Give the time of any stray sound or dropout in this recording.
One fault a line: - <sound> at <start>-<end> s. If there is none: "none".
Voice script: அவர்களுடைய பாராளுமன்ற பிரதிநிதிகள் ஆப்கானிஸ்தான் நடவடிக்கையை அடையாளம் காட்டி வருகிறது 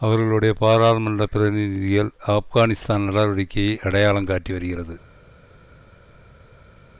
none